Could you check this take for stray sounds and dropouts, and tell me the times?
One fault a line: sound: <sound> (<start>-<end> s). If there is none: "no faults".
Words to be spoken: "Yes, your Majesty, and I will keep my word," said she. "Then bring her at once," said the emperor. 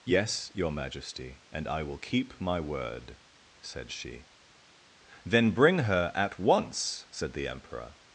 no faults